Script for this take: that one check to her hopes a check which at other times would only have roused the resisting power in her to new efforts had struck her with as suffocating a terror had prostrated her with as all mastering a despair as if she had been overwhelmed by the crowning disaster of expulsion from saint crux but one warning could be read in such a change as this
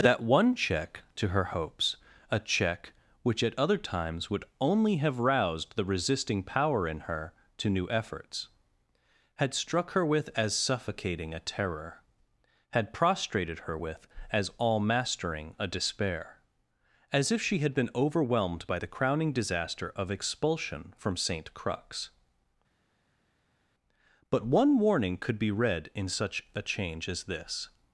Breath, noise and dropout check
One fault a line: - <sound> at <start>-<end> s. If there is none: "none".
none